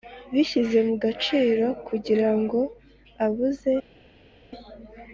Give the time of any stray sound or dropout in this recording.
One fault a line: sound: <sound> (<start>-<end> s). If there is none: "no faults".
no faults